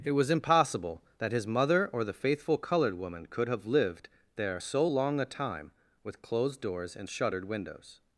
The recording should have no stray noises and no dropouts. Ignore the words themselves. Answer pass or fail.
pass